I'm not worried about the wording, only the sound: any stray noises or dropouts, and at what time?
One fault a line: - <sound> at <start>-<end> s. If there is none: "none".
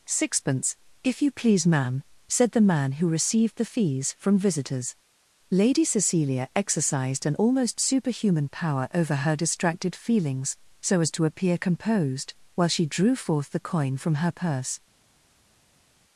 none